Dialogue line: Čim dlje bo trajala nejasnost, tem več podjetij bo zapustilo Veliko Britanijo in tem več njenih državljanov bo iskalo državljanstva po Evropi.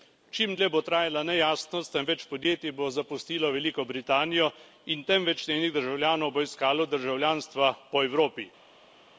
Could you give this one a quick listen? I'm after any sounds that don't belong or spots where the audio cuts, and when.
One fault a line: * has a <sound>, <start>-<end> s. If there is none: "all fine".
all fine